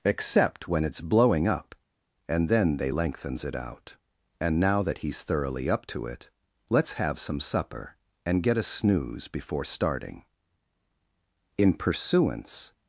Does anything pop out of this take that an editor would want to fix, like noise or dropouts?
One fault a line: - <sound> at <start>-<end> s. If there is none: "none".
none